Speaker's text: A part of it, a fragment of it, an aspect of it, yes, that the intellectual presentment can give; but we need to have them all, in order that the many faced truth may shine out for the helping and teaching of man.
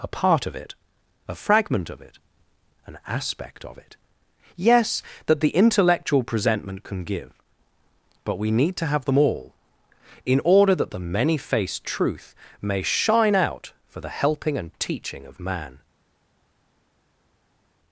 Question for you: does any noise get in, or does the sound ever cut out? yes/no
no